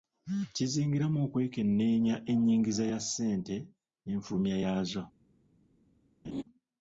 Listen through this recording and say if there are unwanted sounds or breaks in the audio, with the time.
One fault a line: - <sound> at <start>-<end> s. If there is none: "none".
- laugh at 6.2-6.4 s